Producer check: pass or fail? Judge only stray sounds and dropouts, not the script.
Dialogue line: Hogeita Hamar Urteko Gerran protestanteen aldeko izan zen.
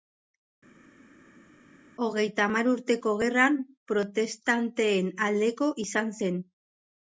pass